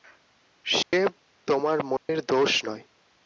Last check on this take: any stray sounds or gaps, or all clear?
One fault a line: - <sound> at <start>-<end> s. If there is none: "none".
- dropout at 0.8-0.9 s
- dropout at 2.0-2.1 s